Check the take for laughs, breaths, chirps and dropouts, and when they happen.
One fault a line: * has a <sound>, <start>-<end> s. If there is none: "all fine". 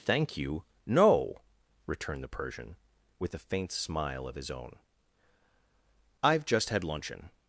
all fine